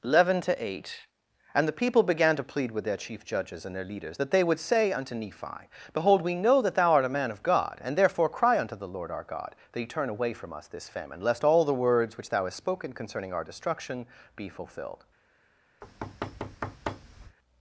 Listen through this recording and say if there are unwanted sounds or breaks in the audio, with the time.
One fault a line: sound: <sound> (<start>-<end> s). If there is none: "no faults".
sound: thud (15.8-17.4 s)